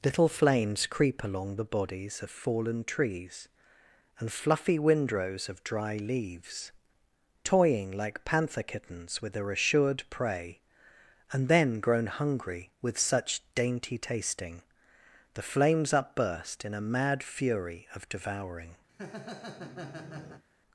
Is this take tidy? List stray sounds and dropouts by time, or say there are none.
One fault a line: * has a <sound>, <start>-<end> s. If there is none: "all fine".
* has a laugh, 18.9-20.4 s